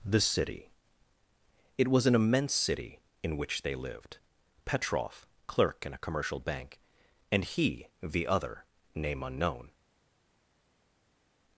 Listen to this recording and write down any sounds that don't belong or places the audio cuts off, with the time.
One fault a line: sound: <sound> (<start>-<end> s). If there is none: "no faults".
no faults